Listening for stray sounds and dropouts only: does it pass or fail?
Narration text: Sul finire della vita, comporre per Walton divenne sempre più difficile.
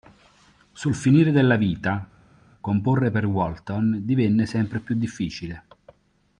pass